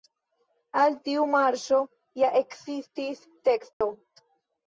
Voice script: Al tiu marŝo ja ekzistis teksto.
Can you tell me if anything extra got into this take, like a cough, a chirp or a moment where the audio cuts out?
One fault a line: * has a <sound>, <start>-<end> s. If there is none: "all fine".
* has a dropout, 3.7-3.8 s